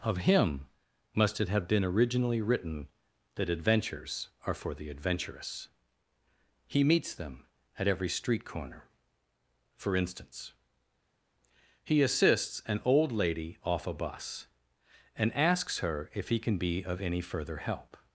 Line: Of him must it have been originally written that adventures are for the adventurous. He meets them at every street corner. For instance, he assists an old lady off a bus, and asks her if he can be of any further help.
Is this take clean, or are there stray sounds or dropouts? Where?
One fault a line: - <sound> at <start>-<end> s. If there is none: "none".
none